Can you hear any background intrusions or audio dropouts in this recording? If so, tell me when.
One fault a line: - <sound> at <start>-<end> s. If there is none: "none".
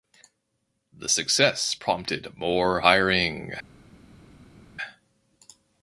none